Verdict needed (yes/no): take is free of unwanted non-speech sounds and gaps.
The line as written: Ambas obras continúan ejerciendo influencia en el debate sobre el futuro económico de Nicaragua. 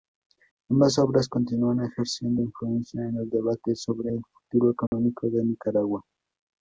no